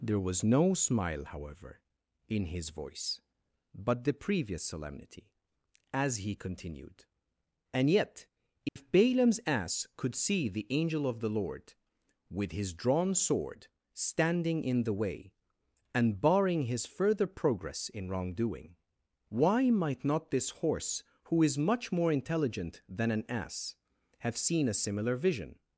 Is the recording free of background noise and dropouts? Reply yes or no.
no